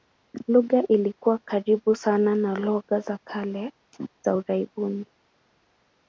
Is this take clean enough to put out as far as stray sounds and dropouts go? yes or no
yes